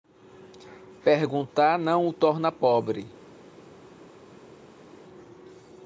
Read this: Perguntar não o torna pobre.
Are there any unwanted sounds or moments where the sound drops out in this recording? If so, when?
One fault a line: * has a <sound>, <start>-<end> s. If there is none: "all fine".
all fine